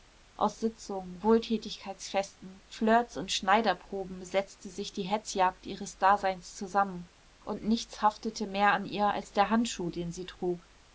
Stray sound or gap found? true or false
false